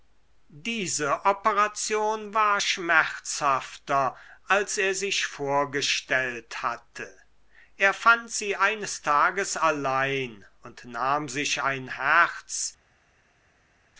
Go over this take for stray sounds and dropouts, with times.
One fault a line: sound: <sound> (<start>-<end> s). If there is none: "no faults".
no faults